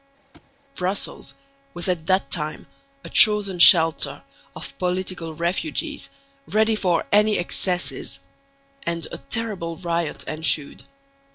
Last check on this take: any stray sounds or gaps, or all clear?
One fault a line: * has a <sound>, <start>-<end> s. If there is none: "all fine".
* has a thud, 0.3-0.5 s